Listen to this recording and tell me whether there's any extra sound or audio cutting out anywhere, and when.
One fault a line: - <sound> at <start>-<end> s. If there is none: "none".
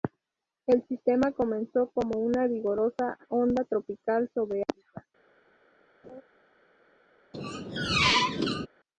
- laugh at 6.0-6.2 s
- squeak at 7.3-8.7 s